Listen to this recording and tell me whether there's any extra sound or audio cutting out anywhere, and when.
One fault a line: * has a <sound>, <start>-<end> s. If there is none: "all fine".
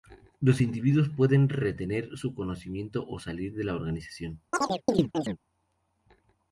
* has a chirp, 4.5-5.4 s